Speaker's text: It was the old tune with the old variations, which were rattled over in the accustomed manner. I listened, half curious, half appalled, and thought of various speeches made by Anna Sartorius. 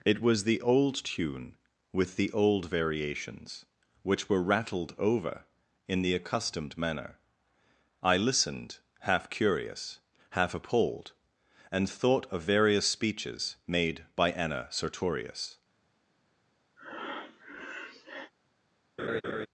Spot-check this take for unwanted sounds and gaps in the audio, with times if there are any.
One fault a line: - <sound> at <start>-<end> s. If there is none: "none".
- breath at 16.8-18.3 s
- laugh at 19.0-19.5 s